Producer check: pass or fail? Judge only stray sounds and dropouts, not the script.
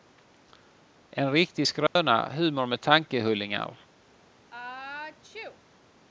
fail